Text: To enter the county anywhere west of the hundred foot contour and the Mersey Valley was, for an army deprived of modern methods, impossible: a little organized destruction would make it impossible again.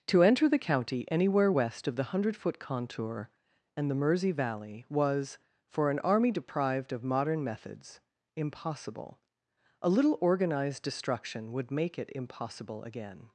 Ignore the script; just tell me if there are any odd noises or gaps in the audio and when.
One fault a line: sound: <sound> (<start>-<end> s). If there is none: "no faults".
no faults